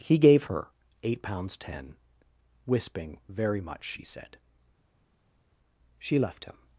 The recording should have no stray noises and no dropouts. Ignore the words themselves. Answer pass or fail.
pass